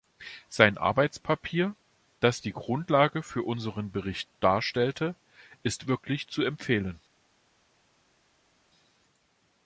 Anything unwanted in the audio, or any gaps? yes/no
no